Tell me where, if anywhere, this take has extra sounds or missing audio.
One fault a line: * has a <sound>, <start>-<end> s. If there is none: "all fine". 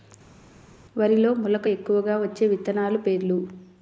all fine